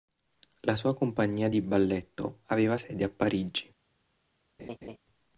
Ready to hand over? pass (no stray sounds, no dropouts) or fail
fail